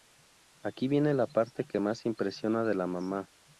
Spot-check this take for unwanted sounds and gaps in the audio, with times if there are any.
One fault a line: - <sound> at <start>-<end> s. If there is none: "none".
none